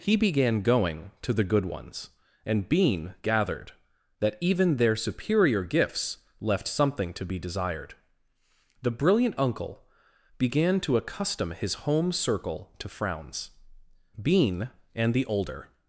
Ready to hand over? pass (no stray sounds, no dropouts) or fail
pass